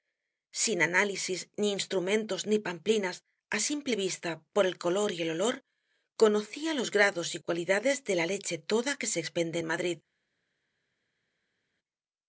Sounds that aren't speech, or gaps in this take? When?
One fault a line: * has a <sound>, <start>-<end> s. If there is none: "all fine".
all fine